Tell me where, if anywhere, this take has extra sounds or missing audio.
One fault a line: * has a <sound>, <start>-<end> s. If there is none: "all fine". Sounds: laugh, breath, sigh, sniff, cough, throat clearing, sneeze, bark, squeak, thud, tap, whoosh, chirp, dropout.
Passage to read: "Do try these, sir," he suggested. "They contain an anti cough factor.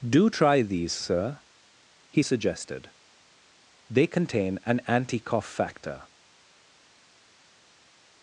all fine